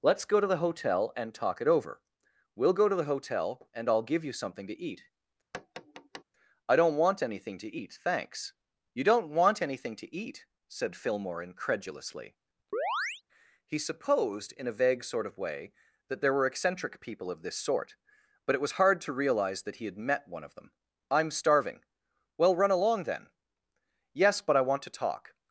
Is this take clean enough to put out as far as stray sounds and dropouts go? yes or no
no